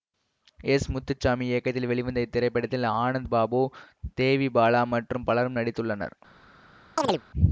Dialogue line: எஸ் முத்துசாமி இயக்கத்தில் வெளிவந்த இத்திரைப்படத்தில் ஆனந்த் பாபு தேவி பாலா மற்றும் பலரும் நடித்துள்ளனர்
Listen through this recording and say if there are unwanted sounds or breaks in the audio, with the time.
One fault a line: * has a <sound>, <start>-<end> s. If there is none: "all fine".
* has a chirp, 7.0-7.2 s